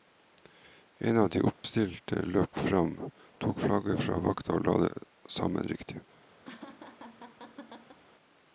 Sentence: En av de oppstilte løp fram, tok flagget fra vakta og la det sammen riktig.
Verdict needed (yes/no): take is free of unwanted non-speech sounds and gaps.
no